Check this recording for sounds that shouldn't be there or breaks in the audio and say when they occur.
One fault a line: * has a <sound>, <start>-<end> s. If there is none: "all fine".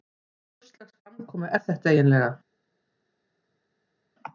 all fine